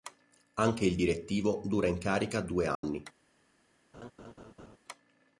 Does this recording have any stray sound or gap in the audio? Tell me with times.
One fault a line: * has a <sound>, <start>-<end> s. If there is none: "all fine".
* has a dropout, 2.7-2.8 s
* has a laugh, 3.9-4.8 s